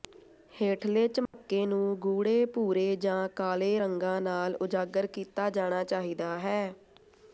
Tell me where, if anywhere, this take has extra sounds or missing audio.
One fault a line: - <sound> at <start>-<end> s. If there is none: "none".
- dropout at 1.3-1.3 s